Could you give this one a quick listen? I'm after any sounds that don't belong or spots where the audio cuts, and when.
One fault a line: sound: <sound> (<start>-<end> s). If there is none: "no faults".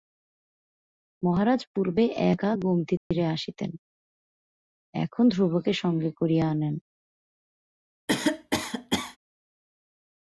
sound: dropout (3.0-3.1 s)
sound: cough (8.1-9.2 s)